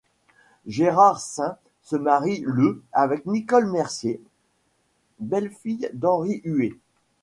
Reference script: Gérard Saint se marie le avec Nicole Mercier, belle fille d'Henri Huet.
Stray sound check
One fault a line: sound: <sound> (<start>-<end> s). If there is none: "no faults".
no faults